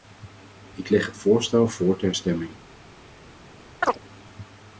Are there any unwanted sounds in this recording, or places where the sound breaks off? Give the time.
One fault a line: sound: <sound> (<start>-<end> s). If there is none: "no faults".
sound: chirp (3.8-4.0 s)